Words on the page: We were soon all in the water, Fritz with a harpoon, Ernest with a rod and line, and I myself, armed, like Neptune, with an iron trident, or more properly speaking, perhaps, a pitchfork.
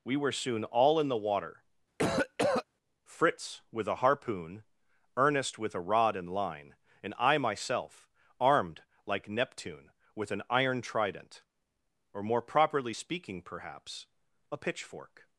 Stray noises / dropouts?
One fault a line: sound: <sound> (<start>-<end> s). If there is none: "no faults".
sound: cough (2.0-2.6 s)